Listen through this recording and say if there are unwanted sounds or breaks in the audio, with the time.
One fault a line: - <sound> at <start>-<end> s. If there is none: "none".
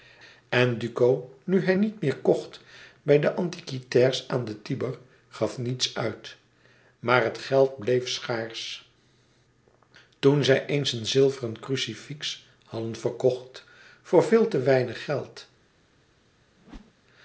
- whoosh at 16.6-16.9 s